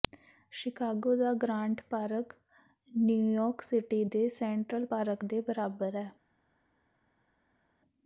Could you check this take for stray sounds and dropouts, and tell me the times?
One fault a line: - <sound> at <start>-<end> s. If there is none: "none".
none